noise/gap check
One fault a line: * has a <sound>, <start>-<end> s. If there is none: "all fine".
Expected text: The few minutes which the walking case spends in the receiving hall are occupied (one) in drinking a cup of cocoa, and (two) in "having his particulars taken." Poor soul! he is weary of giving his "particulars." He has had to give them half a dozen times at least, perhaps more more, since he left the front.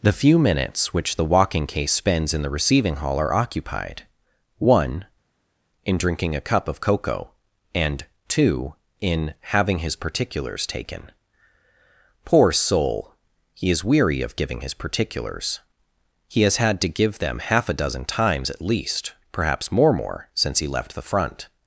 all fine